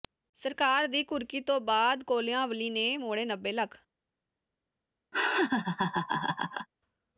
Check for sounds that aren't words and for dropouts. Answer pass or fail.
fail